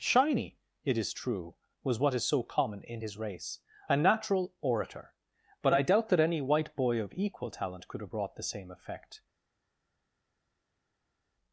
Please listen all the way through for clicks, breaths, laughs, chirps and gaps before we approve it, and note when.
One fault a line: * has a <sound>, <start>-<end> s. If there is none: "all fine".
all fine